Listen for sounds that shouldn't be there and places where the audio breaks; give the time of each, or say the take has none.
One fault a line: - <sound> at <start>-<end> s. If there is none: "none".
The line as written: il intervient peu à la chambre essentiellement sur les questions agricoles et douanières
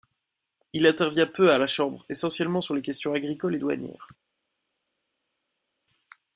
none